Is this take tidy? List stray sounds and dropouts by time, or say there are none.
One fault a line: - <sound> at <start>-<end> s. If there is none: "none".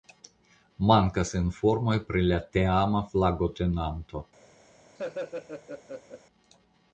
- laugh at 5.0-6.2 s